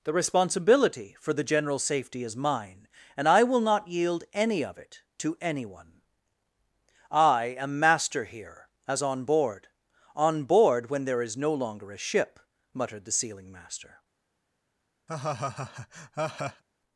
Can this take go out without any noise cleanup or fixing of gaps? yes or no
no